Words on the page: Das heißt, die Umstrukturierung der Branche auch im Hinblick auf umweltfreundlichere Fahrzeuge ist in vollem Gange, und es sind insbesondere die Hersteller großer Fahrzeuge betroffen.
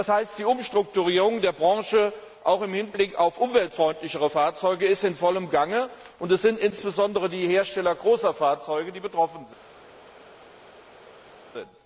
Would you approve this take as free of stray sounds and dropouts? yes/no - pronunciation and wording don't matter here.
yes